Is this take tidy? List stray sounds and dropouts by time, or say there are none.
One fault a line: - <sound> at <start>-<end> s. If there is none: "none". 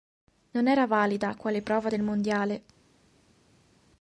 none